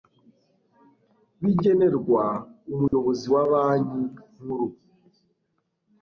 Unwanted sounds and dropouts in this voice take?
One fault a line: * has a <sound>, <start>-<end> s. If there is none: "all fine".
* has a dropout, 2.9-2.9 s